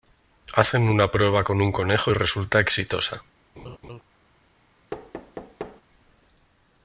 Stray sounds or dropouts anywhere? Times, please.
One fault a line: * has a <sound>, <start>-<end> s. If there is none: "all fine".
* has a laugh, 3.6-4.0 s
* has a thud, 4.9-5.8 s